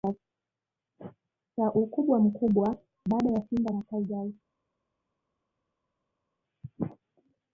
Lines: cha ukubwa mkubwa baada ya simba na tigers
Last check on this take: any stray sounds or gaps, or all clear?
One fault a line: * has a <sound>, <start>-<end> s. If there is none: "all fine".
all fine